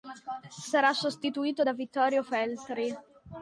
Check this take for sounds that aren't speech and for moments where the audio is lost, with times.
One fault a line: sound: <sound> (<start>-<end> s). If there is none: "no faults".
no faults